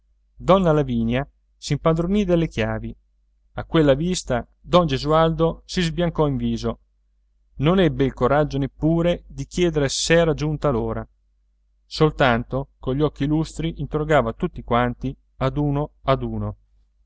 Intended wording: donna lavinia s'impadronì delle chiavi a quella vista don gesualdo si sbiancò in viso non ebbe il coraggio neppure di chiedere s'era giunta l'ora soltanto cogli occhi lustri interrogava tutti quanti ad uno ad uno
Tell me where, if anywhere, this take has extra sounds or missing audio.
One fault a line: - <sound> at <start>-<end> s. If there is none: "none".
none